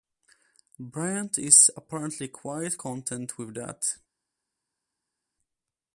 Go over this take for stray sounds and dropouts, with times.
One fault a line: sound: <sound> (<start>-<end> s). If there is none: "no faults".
no faults